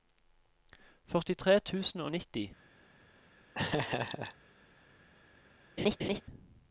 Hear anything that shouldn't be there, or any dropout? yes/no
yes